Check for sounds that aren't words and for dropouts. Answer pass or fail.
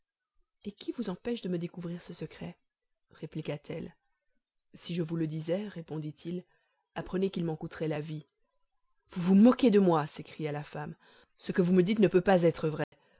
fail